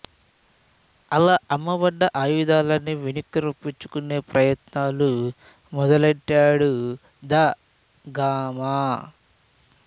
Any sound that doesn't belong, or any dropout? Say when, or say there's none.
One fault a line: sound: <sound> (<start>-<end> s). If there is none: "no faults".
no faults